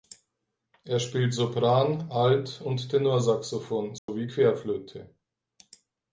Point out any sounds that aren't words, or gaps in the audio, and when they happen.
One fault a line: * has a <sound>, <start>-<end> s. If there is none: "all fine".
* has a dropout, 4.0-4.1 s